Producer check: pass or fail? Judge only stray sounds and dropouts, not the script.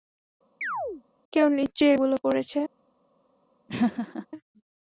fail